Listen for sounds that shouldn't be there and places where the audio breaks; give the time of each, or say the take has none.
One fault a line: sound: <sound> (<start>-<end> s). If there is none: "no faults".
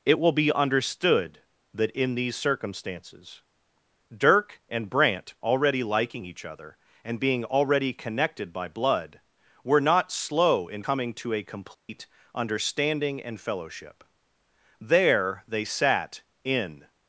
sound: dropout (11.7-11.9 s)